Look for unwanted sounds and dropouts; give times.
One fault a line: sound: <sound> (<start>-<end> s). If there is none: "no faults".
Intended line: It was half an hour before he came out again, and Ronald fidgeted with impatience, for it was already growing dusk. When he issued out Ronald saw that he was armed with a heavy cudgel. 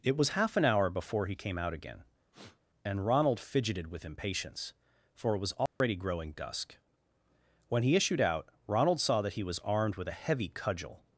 sound: sniff (2.3-2.6 s)
sound: dropout (5.7-5.8 s)